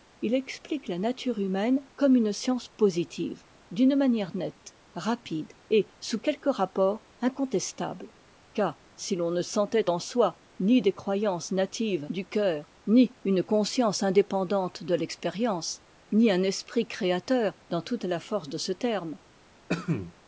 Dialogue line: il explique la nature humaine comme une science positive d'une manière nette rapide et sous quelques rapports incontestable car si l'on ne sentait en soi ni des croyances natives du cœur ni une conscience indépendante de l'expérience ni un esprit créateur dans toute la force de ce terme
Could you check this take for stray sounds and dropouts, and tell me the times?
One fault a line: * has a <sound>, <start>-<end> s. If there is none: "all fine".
* has a cough, 19.7-20.1 s